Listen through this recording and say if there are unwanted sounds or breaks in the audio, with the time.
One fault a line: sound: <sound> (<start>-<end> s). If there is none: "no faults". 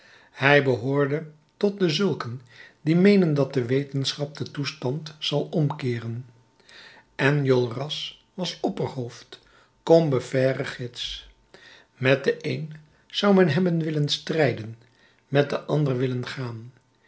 no faults